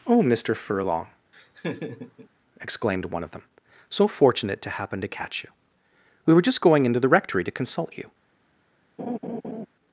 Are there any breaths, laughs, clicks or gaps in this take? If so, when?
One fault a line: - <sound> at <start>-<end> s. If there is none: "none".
- laugh at 1.3-2.3 s
- laugh at 9.0-9.7 s